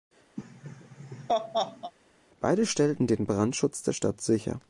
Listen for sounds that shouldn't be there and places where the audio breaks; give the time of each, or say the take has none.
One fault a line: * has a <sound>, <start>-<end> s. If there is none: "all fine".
* has a laugh, 0.4-1.9 s